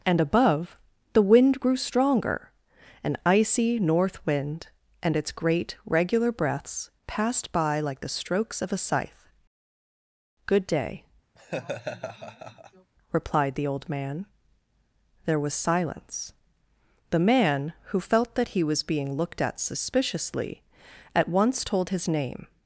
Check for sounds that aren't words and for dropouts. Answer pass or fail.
fail